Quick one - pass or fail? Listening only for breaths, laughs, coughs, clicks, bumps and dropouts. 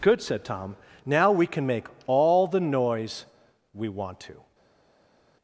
pass